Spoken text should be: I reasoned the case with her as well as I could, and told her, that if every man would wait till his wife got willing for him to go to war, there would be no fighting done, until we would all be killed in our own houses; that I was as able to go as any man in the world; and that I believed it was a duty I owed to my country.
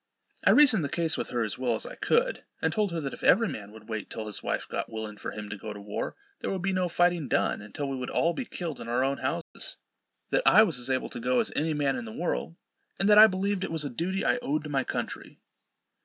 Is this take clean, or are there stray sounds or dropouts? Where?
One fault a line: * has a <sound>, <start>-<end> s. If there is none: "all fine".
* has a dropout, 9.4-9.5 s